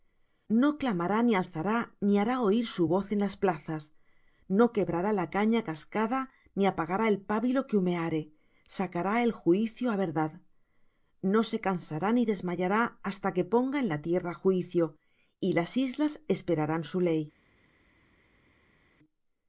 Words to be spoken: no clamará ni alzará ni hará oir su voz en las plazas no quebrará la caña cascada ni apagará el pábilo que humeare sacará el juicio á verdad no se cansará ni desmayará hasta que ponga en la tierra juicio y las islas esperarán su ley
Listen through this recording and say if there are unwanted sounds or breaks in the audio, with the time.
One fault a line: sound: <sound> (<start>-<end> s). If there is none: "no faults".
no faults